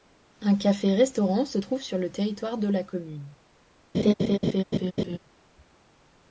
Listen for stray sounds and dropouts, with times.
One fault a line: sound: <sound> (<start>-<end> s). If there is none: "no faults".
sound: laugh (3.9-5.2 s)